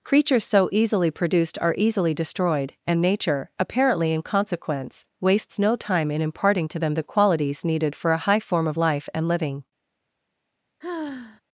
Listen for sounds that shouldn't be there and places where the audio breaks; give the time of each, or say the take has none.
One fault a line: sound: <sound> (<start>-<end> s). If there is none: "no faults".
sound: sigh (10.8-11.4 s)